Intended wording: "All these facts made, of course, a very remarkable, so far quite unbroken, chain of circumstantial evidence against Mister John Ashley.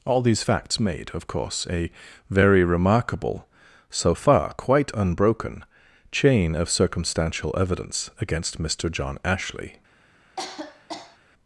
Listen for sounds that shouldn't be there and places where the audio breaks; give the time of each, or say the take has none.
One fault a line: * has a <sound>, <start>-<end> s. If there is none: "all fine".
* has a cough, 10.4-11.2 s